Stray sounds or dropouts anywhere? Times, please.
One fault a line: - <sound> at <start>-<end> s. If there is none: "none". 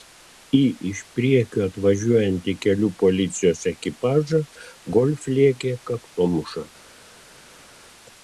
none